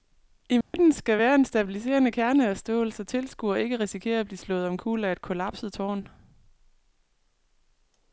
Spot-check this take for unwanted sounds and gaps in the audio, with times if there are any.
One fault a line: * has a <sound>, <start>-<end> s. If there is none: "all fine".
* has a dropout, 0.6-0.7 s